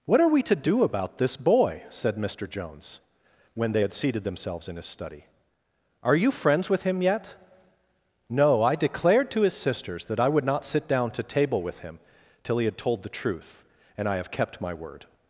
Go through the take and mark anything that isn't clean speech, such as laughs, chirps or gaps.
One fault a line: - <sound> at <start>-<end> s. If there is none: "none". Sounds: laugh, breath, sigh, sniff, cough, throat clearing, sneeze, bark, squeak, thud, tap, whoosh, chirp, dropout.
none